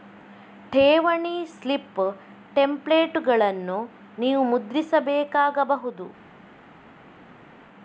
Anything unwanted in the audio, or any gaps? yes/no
no